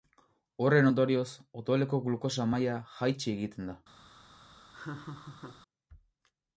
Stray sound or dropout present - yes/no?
yes